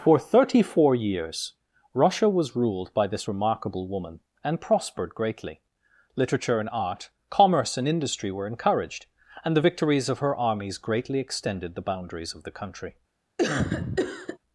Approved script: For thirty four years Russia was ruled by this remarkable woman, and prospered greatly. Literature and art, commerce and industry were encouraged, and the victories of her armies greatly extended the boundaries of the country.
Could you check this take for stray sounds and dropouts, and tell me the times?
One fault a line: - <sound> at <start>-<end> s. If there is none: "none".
- cough at 13.4-14.4 s